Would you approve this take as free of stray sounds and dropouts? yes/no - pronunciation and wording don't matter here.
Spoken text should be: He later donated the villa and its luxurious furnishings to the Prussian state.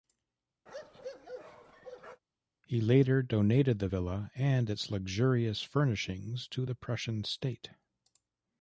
no